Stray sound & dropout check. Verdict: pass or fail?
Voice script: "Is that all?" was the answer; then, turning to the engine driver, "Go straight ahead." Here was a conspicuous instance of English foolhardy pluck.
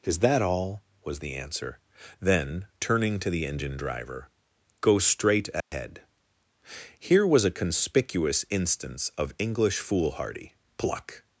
fail